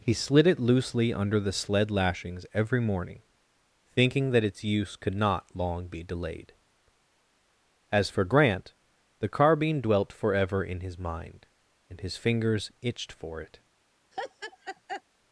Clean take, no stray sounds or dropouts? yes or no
no